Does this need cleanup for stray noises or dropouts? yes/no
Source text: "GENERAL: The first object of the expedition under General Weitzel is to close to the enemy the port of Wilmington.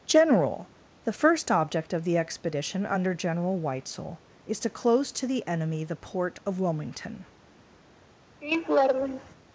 yes